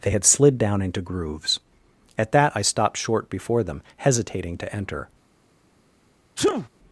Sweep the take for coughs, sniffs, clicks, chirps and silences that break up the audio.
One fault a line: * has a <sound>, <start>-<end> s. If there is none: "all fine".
* has a sneeze, 6.4-6.7 s